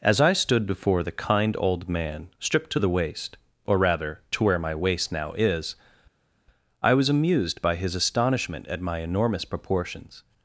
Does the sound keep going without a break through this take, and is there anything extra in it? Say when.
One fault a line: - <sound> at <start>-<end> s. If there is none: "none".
none